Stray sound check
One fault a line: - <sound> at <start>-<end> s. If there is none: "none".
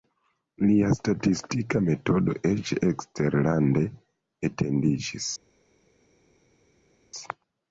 none